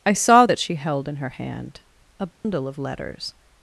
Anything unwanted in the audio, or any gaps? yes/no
yes